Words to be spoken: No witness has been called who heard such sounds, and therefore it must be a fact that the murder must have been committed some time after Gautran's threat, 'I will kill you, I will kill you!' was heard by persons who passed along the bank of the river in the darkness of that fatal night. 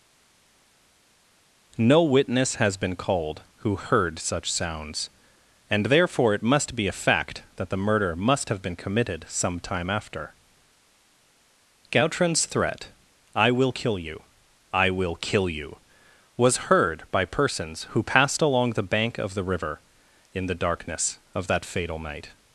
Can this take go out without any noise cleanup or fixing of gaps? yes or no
yes